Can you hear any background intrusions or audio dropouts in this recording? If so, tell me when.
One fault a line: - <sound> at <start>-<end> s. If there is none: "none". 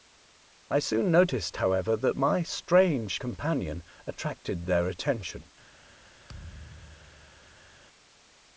- thud at 6.3-7.7 s